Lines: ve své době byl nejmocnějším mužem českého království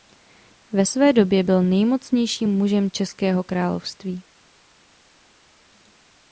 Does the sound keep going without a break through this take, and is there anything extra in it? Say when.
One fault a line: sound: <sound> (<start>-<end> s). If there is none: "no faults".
no faults